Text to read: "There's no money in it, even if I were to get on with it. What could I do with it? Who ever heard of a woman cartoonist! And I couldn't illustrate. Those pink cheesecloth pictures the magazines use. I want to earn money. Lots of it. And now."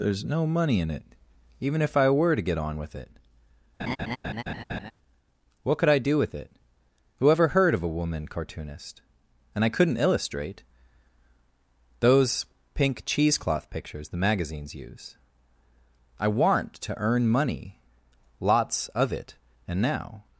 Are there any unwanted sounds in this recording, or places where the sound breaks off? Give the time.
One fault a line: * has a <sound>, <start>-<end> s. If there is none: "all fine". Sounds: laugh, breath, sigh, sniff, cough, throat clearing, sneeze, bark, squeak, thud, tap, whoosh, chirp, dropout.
* has a laugh, 3.8-4.9 s